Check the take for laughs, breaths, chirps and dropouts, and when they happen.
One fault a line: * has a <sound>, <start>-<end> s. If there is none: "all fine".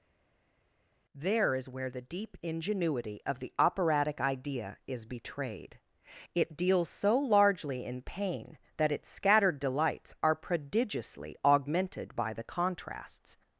all fine